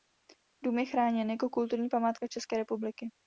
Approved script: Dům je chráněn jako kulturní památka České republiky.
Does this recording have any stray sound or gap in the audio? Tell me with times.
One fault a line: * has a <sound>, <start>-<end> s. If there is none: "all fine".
all fine